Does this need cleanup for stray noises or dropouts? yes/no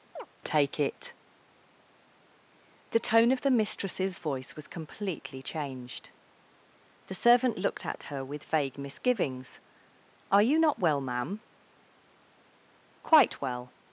yes